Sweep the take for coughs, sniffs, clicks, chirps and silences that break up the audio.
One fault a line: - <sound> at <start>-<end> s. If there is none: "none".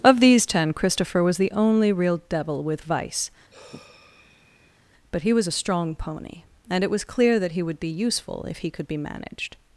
- sigh at 3.5-4.8 s